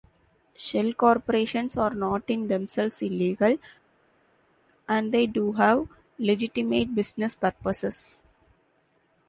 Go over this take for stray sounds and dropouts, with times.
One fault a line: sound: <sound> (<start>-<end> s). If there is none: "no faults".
no faults